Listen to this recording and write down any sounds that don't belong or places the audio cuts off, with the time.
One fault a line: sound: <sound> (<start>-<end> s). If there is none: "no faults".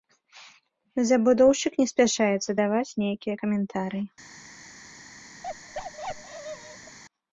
sound: bark (5.4-7.0 s)